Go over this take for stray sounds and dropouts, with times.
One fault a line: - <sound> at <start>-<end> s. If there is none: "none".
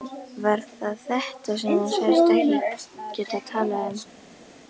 none